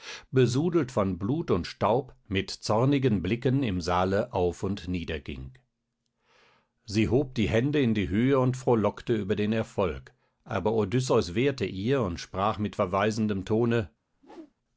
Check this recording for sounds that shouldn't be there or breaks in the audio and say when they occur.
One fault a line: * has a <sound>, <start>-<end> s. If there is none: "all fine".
* has a whoosh, 14.1-14.5 s